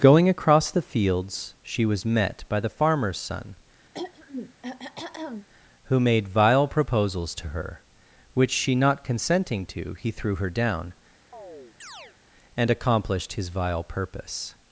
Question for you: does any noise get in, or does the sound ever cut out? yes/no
yes